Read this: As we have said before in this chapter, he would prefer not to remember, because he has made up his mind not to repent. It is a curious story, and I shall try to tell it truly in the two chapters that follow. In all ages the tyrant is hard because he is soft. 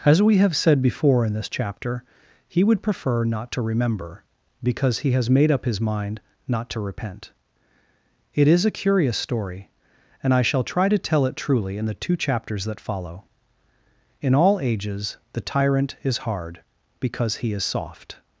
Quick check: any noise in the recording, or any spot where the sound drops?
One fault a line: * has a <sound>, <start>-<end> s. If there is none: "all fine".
all fine